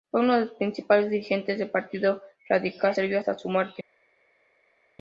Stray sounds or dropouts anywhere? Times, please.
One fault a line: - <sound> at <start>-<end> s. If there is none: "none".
none